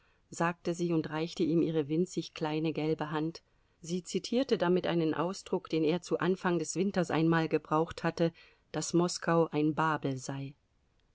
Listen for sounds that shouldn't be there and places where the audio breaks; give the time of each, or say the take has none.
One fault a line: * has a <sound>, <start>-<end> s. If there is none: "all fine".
all fine